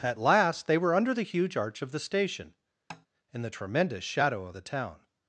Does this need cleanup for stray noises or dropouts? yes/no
yes